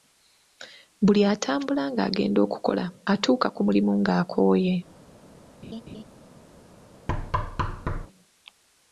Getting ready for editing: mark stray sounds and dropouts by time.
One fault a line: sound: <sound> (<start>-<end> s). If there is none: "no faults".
sound: laugh (5.6-6.0 s)
sound: thud (7.1-8.1 s)